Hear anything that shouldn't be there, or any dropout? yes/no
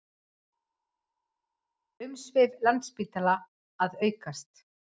no